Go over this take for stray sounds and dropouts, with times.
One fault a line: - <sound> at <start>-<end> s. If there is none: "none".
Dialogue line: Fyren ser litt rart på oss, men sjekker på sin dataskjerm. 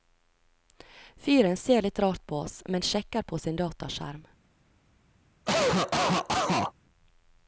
- cough at 5.5-6.7 s